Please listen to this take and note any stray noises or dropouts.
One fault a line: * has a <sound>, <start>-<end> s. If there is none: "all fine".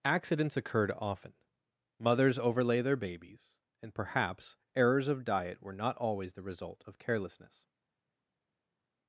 all fine